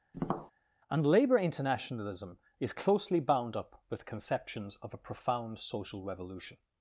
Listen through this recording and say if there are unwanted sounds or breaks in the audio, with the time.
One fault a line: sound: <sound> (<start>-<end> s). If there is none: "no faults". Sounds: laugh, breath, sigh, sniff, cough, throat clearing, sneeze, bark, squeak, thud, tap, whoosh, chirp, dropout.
sound: tap (0.1-0.5 s)